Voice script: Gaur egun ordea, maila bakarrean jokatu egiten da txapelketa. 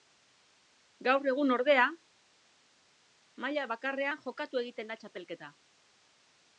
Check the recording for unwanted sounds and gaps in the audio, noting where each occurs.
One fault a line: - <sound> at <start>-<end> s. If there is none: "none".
none